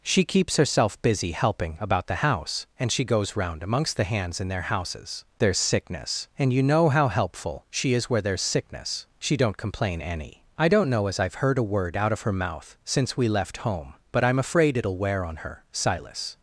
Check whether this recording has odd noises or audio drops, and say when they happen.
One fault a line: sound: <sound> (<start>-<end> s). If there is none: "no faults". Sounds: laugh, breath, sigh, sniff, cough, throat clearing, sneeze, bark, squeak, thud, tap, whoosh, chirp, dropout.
no faults